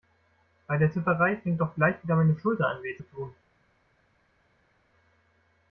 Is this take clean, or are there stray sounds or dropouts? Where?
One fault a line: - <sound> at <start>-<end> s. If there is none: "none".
none